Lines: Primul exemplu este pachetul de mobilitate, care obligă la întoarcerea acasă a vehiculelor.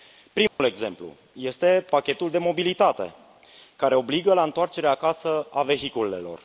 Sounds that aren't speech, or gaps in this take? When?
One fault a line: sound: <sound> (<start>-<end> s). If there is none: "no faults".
sound: dropout (0.5-0.6 s)